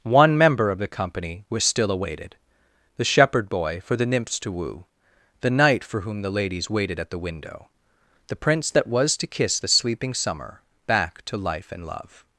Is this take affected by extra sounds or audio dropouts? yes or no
no